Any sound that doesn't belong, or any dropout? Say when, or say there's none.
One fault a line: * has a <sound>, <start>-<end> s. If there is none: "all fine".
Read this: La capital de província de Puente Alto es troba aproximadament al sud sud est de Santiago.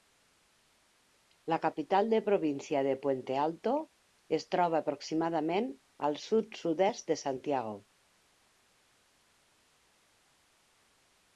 all fine